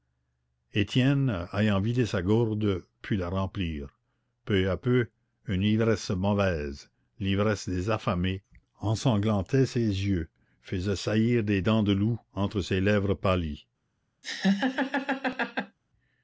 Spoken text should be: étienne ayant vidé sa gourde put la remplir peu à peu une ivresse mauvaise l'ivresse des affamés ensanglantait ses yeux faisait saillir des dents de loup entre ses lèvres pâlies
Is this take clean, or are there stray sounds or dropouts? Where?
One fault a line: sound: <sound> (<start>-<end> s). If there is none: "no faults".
sound: laugh (14.2-15.8 s)